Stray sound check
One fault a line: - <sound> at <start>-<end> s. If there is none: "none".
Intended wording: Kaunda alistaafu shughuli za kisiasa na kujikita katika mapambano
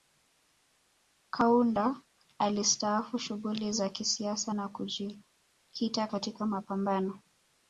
none